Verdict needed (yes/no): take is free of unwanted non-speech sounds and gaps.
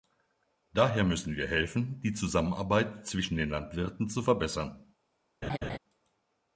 no